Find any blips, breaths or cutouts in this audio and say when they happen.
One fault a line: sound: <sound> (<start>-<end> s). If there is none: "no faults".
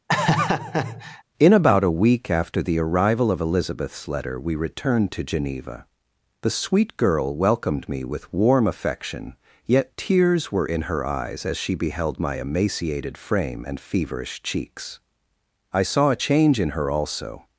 sound: laugh (0.1-1.2 s)